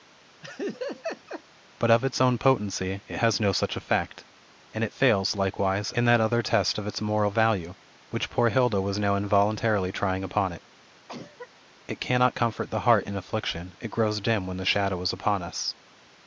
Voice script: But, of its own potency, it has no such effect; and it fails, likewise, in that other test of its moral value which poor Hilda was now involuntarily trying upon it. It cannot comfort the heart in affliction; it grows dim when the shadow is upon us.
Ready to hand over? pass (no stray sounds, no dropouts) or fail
fail